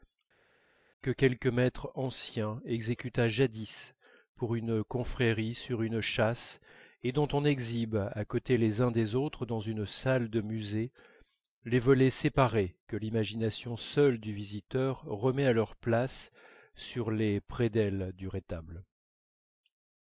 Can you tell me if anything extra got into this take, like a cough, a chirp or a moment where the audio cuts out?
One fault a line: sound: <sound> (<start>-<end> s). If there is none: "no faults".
no faults